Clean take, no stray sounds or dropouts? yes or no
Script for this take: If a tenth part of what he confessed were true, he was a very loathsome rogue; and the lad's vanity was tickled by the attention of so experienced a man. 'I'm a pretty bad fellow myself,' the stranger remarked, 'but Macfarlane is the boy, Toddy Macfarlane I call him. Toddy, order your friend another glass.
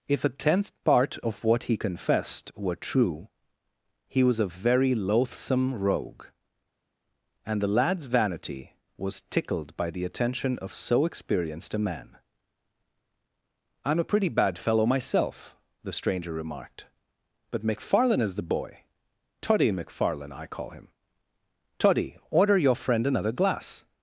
yes